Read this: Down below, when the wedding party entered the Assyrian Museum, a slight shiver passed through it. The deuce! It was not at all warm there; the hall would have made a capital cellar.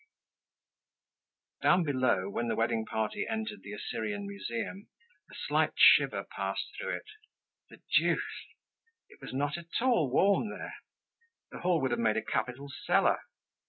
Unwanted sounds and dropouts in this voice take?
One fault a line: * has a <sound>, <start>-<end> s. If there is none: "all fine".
all fine